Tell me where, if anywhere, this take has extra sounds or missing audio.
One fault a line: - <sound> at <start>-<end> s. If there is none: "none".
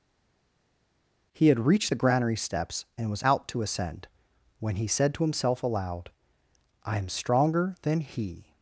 none